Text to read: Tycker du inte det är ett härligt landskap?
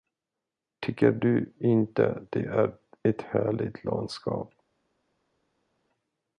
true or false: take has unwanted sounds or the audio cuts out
false